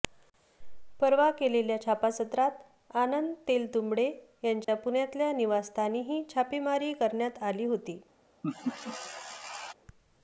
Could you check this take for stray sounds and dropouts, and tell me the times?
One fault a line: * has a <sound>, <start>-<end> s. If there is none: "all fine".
* has a dropout, 4.6-4.7 s
* has a laugh, 8.4-9.7 s